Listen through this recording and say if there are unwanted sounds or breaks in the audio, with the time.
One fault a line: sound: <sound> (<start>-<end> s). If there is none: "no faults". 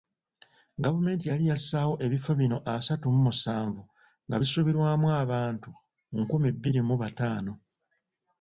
no faults